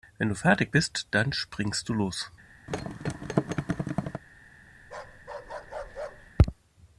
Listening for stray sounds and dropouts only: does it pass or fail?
fail